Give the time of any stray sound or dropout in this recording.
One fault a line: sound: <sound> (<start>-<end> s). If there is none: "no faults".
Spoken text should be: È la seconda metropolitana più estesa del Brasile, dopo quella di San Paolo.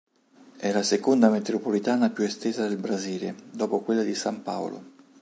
no faults